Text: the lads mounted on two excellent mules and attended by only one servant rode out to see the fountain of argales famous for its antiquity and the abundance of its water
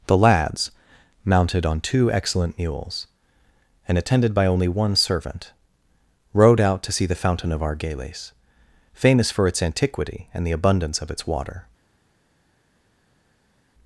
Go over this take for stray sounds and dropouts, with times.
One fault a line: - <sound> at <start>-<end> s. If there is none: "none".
none